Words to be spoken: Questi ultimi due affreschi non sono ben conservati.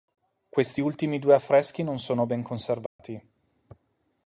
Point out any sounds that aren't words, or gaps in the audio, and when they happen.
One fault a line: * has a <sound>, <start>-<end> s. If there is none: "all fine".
* has a dropout, 2.9-3.0 s